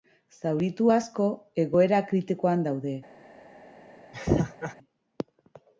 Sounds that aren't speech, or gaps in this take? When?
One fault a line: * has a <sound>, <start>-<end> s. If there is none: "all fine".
* has a laugh, 4.1-4.8 s